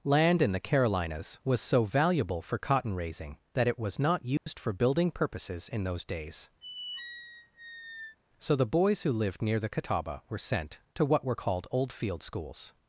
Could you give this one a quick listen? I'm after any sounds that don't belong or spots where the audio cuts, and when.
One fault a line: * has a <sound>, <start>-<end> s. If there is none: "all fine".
* has a dropout, 4.4-4.5 s
* has a squeak, 6.6-8.2 s